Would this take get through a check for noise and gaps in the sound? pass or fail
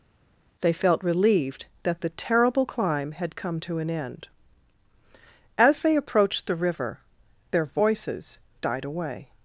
pass